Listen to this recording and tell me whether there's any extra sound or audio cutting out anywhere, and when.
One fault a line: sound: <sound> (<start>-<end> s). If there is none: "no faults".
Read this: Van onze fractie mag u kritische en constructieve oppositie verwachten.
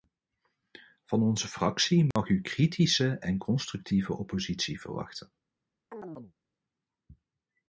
sound: dropout (2.1-2.2 s)
sound: chirp (5.9-6.3 s)